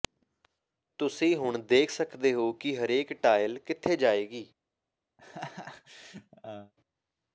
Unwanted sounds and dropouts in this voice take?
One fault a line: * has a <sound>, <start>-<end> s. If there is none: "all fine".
* has a laugh, 5.2-6.7 s